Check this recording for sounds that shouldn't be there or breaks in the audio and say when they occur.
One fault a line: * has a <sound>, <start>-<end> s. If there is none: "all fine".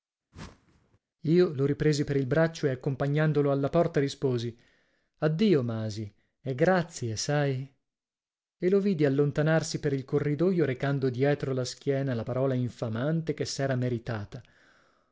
* has a whoosh, 0.3-1.0 s